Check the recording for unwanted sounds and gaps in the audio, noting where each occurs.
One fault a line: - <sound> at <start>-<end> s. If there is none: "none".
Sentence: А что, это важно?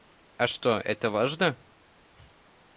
none